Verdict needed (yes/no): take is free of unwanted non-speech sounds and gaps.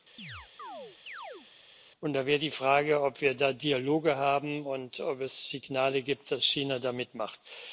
no